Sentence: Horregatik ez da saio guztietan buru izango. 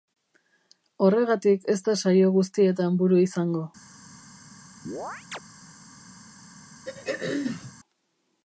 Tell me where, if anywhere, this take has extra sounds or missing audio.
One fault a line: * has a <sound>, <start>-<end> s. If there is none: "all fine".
* has a chirp, 4.9-5.4 s
* has a throat clearing, 6.9-7.7 s